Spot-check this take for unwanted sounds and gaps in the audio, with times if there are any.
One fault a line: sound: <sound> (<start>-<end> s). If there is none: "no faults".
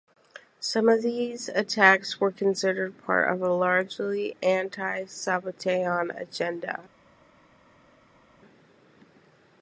no faults